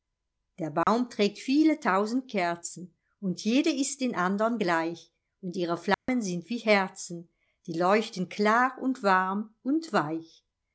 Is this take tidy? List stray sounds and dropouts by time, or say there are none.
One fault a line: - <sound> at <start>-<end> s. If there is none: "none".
- dropout at 0.8-0.9 s
- dropout at 5.9-6.1 s